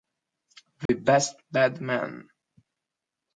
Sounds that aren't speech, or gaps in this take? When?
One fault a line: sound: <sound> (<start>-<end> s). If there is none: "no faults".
sound: dropout (0.9-0.9 s)